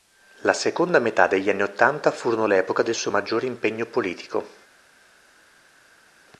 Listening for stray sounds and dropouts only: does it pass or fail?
pass